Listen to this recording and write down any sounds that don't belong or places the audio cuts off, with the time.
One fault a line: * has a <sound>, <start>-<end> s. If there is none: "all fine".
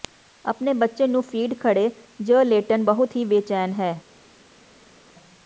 all fine